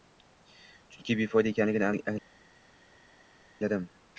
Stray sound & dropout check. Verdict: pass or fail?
pass